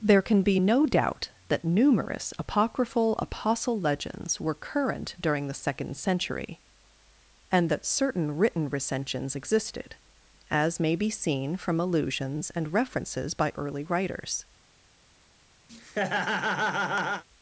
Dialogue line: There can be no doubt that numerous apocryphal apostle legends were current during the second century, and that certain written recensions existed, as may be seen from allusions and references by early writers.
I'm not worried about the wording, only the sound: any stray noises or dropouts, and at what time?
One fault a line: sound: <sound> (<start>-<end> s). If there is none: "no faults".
sound: laugh (15.7-17.2 s)